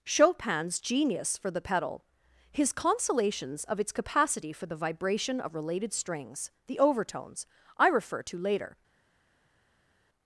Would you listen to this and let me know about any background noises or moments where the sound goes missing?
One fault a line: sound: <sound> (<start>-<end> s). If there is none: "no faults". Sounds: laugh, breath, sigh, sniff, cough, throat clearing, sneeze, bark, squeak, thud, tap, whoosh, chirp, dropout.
no faults